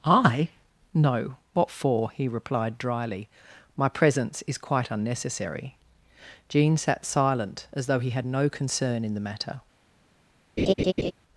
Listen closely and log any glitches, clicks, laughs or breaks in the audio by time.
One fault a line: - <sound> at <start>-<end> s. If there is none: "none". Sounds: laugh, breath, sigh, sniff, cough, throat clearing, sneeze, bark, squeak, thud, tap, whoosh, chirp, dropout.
- laugh at 10.6-11.1 s